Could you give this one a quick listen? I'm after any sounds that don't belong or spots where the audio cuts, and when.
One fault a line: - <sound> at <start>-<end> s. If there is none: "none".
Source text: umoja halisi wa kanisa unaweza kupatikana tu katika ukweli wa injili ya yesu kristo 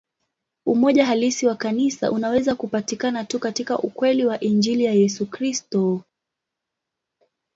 none